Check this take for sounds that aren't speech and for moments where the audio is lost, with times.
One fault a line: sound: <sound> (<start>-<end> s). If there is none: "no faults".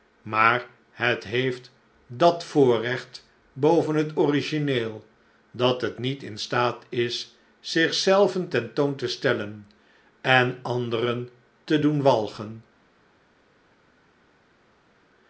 no faults